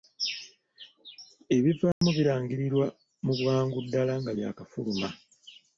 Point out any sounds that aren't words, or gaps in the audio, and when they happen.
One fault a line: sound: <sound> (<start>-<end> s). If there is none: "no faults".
sound: dropout (1.9-2.0 s)